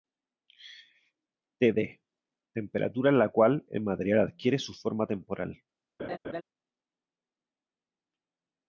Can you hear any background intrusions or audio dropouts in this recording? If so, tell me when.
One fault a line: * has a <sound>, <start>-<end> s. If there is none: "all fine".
* has a laugh, 6.0-6.4 s